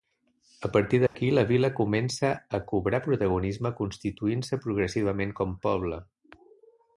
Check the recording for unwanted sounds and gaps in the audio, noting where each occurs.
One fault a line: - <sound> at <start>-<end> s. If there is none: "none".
- dropout at 1.1-1.2 s